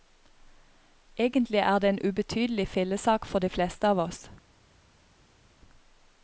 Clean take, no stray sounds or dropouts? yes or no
yes